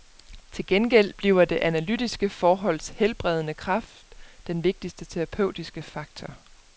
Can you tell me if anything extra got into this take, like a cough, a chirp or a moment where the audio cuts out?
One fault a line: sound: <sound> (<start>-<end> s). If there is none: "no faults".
no faults